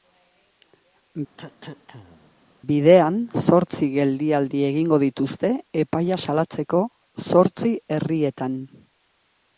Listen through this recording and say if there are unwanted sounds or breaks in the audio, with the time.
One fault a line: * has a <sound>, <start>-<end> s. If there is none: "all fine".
* has a cough, 1.4-2.3 s